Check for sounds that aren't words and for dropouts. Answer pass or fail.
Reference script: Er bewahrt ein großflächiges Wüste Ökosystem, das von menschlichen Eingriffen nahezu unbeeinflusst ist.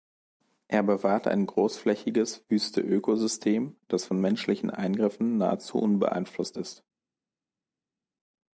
pass